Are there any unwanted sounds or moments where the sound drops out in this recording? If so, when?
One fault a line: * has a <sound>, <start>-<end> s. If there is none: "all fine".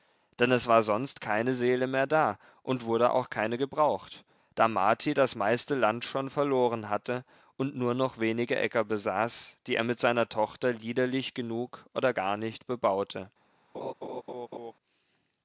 * has a laugh, 13.7-14.7 s